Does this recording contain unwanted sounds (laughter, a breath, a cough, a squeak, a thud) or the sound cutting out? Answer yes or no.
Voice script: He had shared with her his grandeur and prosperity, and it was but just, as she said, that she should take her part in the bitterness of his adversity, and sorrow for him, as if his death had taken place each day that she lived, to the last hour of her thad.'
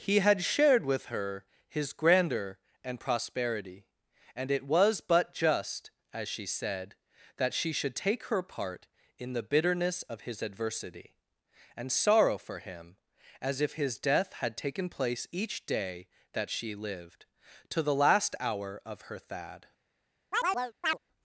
yes